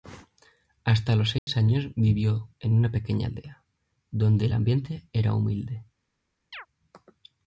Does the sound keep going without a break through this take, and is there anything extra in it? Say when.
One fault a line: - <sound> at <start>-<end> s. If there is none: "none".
- dropout at 1.4-1.5 s
- chirp at 6.5-6.7 s